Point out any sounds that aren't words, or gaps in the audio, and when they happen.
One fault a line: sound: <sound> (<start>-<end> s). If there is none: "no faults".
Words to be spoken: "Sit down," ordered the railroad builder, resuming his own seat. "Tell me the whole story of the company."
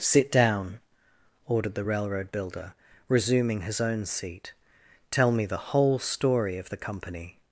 no faults